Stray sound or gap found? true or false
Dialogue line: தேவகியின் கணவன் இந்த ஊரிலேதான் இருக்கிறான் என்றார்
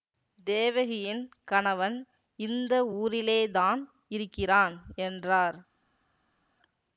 false